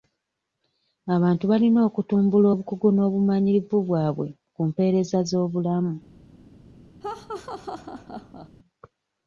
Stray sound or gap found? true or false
true